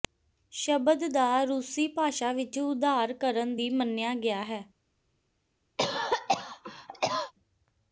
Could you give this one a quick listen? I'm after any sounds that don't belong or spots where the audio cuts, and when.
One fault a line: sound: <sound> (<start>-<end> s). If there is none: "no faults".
sound: cough (5.8-7.3 s)